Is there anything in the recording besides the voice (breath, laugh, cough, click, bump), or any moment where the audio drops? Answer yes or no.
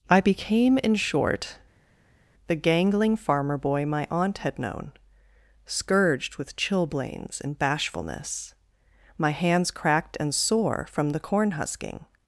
no